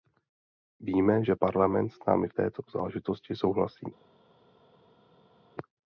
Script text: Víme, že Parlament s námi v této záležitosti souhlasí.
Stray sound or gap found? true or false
false